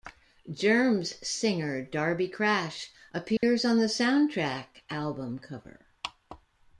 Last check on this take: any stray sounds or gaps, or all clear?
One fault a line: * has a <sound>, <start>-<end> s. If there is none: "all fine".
* has a dropout, 3.4-3.4 s